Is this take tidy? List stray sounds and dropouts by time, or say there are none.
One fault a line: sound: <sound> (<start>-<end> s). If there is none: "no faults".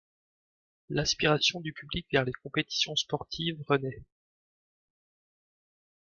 no faults